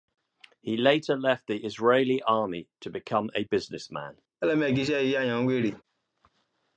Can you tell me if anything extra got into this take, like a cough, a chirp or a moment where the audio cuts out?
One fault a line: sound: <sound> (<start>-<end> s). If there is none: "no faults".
sound: laugh (4.4-5.8 s)